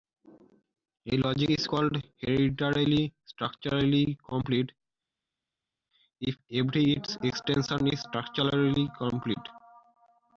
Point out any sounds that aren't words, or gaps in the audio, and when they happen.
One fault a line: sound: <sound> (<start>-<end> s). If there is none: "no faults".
no faults